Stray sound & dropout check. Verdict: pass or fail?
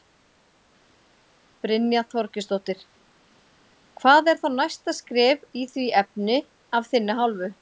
pass